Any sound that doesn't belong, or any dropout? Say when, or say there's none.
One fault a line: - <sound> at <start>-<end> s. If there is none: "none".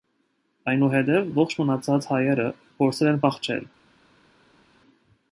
none